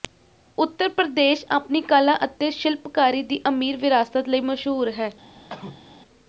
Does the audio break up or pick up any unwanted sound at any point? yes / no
yes